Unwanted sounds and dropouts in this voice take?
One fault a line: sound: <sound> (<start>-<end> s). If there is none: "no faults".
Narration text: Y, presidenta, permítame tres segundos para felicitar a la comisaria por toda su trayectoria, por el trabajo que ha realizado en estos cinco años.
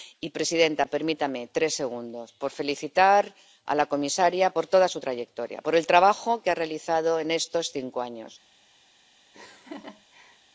sound: laugh (9.3-10.4 s)